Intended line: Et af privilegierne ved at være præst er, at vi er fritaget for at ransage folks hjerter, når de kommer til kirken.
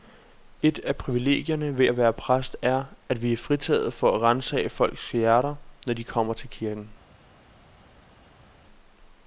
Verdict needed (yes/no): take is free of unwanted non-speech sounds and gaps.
yes